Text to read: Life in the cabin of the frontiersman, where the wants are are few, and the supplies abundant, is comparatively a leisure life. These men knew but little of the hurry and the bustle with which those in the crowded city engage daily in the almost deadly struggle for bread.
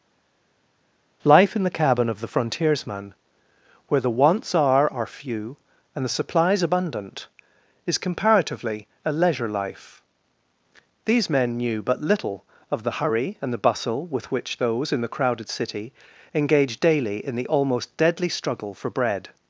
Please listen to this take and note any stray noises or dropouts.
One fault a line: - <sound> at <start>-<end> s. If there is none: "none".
none